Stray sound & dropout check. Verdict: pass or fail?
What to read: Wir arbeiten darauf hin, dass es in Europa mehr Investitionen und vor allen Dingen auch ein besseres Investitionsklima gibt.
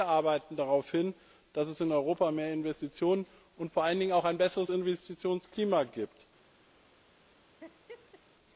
fail